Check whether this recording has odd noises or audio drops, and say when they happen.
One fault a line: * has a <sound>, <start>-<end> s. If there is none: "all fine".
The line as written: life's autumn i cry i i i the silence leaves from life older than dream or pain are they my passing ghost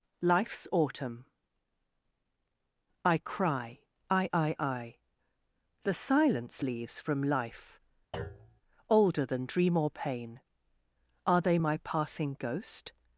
* has a thud, 8.1-8.6 s